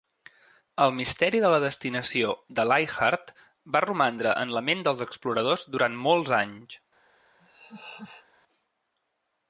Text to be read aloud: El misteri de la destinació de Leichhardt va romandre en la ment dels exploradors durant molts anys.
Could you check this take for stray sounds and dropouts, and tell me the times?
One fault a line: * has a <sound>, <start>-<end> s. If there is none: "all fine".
* has a laugh, 7.4-8.3 s